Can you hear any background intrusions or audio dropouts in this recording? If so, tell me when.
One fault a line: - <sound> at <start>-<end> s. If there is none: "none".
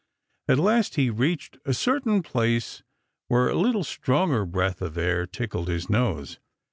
none